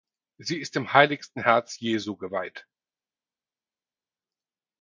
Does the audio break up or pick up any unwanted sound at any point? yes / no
no